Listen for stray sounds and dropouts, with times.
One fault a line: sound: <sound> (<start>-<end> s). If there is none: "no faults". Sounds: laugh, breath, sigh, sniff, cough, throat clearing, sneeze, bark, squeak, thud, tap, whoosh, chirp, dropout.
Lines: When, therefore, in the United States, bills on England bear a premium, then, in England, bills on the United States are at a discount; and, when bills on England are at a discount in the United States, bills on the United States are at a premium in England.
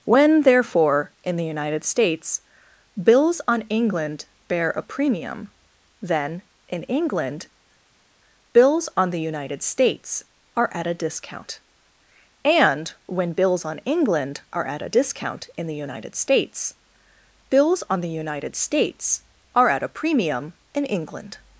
no faults